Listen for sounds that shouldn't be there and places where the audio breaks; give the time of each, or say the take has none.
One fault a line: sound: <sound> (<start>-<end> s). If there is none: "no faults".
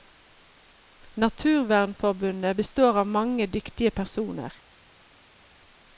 no faults